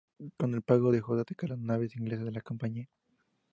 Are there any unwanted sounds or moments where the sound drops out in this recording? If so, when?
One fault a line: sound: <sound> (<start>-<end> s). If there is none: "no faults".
no faults